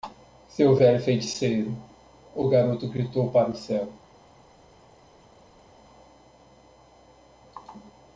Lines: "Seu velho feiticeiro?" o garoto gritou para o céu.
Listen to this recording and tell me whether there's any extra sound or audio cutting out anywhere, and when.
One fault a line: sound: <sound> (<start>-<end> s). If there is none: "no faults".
no faults